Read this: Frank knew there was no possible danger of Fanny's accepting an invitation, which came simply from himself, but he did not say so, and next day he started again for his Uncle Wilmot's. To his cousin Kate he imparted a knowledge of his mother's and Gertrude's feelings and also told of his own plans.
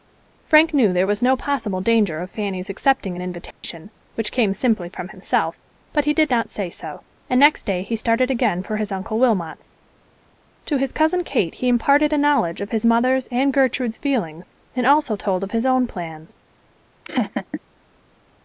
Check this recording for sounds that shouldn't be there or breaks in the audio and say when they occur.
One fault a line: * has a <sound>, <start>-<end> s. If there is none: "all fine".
* has a dropout, 3.5-3.6 s
* has a laugh, 17.0-17.6 s